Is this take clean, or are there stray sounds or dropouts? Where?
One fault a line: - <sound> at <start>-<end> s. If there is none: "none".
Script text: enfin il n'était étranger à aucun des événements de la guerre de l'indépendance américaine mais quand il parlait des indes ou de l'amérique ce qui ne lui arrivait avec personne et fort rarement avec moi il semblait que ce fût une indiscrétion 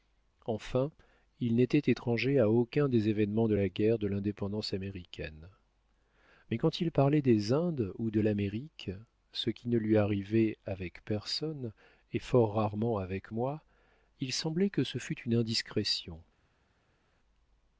none